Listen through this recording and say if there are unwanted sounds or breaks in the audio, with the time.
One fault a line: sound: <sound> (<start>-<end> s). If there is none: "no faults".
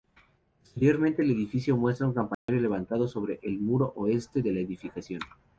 sound: dropout (2.3-2.5 s)